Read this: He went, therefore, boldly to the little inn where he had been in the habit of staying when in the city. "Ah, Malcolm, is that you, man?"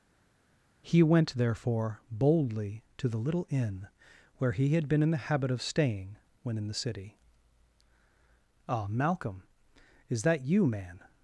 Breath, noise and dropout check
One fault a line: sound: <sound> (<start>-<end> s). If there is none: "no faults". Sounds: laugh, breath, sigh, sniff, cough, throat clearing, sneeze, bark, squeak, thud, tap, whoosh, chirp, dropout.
no faults